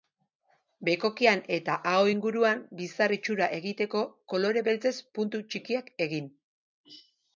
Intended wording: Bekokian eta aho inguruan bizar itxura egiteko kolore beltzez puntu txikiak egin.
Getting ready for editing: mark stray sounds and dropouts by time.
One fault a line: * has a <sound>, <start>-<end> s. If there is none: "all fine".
all fine